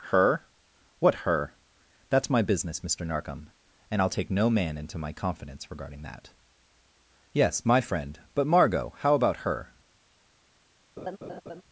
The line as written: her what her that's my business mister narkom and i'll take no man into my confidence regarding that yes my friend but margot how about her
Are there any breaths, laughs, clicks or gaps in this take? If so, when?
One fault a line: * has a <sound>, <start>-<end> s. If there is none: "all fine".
* has a laugh, 11.0-11.6 s